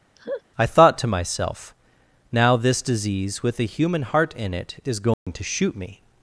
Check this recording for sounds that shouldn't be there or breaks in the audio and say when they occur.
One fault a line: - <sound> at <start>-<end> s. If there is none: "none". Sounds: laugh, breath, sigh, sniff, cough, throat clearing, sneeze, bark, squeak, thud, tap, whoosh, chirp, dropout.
- laugh at 0.2-0.4 s
- dropout at 5.1-5.3 s